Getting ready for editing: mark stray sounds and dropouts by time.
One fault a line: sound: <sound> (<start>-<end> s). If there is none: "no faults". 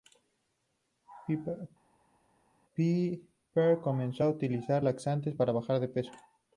no faults